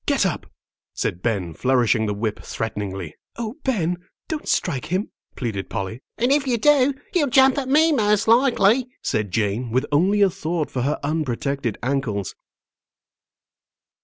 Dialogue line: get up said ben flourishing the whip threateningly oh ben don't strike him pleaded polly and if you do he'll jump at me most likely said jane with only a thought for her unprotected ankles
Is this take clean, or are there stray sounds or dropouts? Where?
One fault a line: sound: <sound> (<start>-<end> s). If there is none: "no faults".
no faults